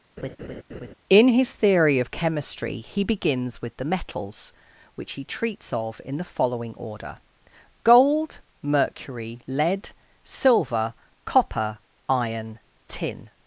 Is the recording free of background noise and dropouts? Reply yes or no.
no